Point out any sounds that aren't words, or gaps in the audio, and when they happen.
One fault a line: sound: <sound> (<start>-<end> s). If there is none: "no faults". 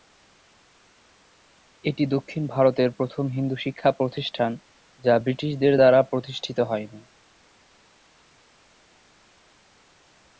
no faults